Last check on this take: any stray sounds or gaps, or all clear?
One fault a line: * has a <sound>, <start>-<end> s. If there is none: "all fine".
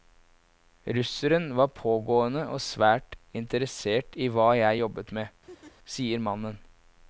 * has a laugh, 5.5-5.7 s